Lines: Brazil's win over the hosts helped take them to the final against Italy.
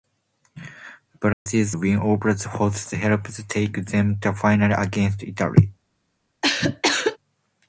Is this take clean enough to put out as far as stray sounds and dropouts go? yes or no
no